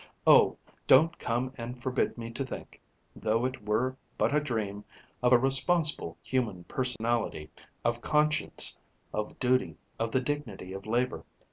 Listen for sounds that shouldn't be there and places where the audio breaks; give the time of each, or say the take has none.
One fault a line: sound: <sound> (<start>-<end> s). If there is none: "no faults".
sound: dropout (7.0-7.0 s)